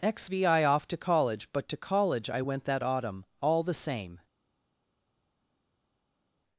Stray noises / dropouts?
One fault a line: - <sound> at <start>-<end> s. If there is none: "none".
none